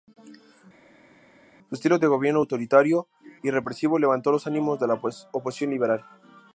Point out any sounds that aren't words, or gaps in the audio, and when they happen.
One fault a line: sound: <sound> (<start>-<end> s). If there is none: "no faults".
no faults